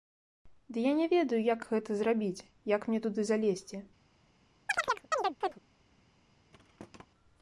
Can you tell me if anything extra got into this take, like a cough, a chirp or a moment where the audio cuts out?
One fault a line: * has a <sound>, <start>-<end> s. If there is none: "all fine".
* has a chirp, 4.7-5.6 s
* has a thud, 6.5-7.1 s